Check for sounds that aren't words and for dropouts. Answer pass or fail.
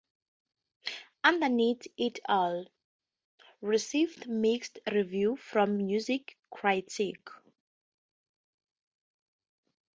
pass